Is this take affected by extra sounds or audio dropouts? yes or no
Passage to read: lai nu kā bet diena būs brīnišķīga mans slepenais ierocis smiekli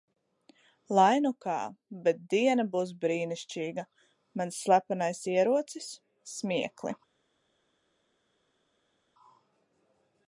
no